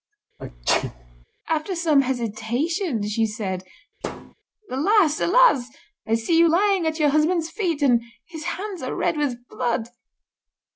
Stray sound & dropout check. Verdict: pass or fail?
fail